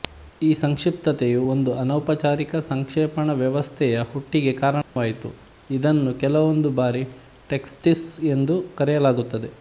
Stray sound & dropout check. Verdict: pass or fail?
fail